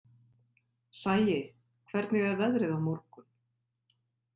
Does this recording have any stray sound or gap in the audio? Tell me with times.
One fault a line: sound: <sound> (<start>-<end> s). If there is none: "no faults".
no faults